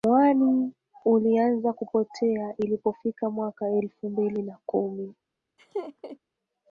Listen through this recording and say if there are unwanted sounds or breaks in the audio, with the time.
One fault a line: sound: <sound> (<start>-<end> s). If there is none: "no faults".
sound: laugh (5.6-6.2 s)